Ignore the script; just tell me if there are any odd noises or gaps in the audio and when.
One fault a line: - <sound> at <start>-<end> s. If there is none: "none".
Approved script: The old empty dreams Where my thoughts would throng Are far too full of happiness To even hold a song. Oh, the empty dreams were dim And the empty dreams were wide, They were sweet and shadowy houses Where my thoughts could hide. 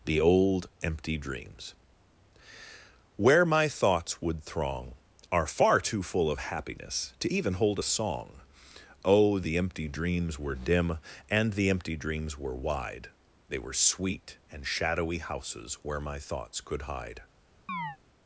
- chirp at 17.7-18.0 s